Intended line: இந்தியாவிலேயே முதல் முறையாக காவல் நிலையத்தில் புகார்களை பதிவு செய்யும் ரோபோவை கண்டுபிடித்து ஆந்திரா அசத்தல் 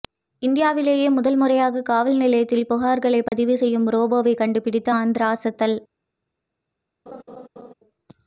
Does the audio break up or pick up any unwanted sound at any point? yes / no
yes